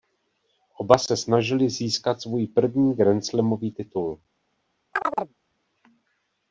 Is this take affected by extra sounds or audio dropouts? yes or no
yes